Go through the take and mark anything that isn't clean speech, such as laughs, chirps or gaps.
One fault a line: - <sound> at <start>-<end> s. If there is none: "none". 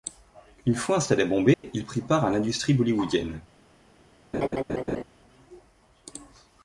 - dropout at 1.5-1.6 s
- laugh at 4.3-5.0 s